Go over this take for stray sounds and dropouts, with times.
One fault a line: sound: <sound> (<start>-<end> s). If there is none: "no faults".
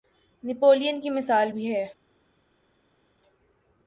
no faults